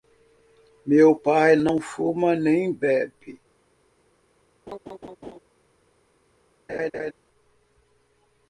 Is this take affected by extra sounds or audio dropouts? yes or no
yes